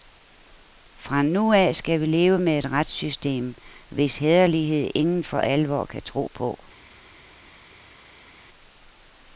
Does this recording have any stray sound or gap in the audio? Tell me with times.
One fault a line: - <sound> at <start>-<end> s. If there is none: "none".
none